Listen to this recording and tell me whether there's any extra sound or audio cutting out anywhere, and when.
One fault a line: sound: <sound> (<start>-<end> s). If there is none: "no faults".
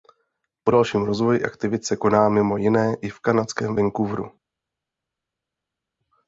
no faults